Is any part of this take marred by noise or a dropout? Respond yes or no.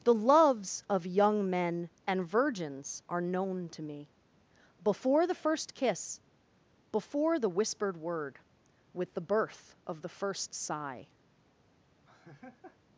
yes